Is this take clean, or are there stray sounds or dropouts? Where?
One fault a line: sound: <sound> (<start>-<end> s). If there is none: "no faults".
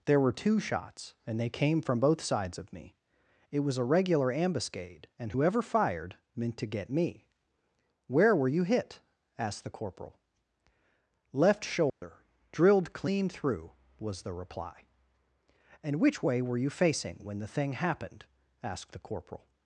sound: dropout (11.9-12.0 s)